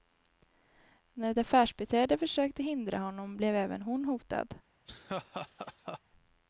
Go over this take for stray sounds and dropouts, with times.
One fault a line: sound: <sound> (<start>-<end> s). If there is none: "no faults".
sound: laugh (4.9-6.0 s)